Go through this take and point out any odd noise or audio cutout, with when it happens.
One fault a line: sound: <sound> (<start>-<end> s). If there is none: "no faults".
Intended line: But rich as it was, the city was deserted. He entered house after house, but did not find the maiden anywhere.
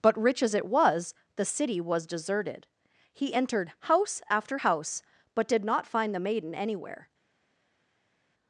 no faults